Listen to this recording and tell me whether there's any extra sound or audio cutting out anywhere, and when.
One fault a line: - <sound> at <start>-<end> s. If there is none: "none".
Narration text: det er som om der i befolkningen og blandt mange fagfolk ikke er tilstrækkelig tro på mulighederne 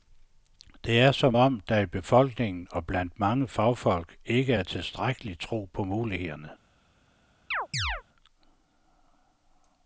- chirp at 7.5-8.0 s